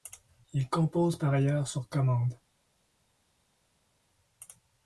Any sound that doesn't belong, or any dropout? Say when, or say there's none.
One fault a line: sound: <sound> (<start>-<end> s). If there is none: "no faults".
no faults